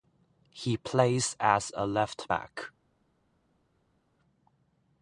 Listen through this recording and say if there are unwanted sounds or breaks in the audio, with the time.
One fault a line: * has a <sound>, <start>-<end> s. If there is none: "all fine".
all fine